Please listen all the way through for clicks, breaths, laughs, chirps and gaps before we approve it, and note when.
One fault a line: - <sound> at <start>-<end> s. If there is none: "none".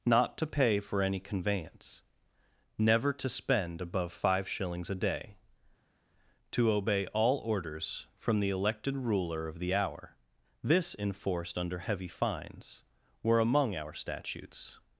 none